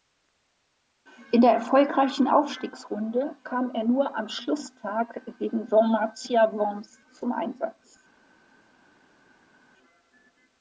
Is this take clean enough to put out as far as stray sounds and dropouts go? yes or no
yes